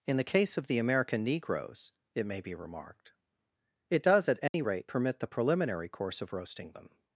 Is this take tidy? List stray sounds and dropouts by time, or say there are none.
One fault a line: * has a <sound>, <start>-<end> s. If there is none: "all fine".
* has a dropout, 4.5-4.5 s